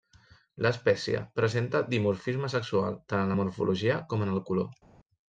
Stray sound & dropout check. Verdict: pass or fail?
pass